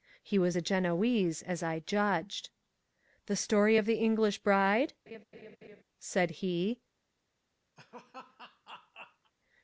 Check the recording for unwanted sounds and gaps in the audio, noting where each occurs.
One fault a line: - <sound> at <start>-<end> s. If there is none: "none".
- laugh at 5.1-5.8 s
- laugh at 7.8-9.3 s